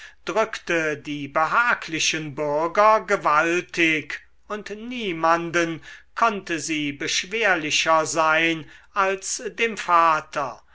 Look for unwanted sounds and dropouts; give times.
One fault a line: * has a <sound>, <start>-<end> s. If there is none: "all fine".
all fine